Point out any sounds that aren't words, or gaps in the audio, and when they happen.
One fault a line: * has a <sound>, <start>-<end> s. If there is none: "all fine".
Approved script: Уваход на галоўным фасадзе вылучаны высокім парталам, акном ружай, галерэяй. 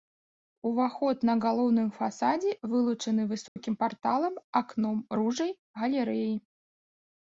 * has a dropout, 3.5-3.6 s